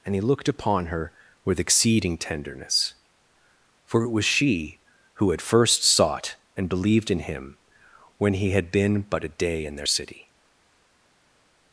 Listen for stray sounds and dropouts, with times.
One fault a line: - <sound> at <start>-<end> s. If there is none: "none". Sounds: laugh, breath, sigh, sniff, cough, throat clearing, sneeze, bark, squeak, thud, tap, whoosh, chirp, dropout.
none